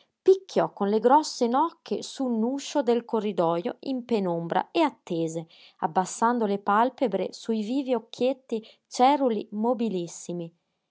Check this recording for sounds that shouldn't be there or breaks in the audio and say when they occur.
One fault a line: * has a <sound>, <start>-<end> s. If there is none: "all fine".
all fine